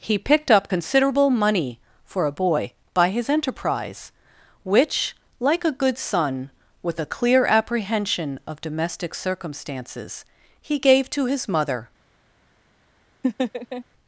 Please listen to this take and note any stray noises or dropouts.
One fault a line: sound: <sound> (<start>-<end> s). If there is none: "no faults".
sound: laugh (13.2-13.8 s)